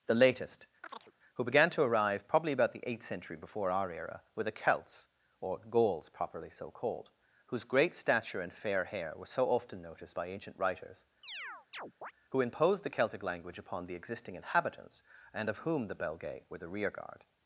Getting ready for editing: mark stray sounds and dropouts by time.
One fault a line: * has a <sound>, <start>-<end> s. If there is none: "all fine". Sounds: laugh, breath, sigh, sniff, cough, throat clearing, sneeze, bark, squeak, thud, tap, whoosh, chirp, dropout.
* has a chirp, 0.8-1.1 s
* has a chirp, 11.2-12.1 s